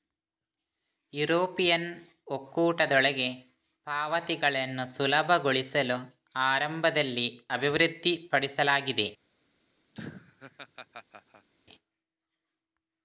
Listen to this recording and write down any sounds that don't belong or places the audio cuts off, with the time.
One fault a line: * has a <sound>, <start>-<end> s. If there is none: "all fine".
* has a laugh, 9.9-11.5 s